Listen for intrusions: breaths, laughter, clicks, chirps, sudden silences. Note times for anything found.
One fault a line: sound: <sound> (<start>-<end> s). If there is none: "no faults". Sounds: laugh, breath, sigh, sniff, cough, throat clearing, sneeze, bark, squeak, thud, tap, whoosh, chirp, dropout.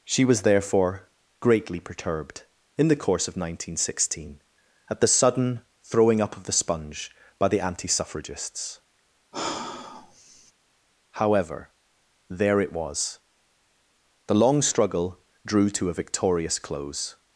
sound: sigh (9.3-10.5 s)